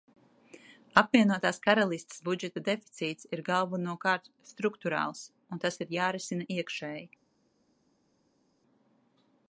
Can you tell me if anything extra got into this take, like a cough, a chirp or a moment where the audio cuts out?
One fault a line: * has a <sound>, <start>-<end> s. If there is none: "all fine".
all fine